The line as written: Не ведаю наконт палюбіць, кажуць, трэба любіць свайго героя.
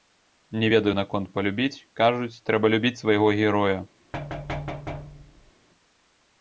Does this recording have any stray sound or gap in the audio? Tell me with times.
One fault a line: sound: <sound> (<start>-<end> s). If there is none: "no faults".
sound: thud (4.1-5.5 s)